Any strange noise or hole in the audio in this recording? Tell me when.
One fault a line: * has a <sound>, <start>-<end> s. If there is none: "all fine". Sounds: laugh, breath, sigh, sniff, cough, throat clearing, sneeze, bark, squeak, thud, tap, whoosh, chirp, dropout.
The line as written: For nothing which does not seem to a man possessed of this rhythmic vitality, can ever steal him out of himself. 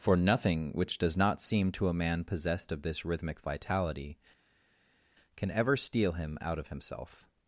all fine